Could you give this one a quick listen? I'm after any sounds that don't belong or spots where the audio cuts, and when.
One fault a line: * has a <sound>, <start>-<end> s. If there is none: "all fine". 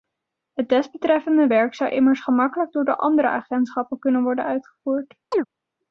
* has a chirp, 5.3-5.5 s